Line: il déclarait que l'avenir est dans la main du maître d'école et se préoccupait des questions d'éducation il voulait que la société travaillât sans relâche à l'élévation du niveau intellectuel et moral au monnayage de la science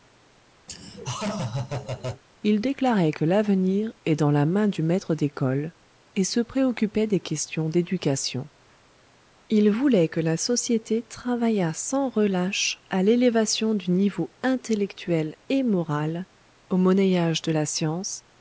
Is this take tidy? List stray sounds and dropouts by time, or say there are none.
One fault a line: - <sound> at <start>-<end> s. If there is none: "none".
- laugh at 0.7-2.2 s